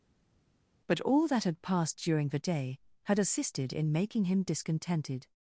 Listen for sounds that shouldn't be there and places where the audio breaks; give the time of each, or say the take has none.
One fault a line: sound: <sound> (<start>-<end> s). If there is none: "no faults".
no faults